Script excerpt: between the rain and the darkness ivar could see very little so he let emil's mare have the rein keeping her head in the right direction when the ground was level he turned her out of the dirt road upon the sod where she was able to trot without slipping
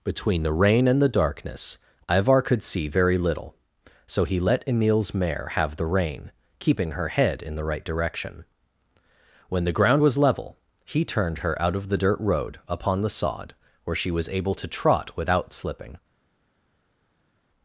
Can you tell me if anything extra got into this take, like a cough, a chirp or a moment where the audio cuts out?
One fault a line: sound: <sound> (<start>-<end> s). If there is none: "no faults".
no faults